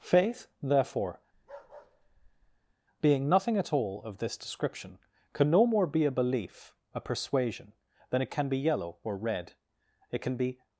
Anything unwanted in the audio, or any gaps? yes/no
yes